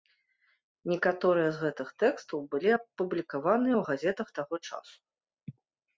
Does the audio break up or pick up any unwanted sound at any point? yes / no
no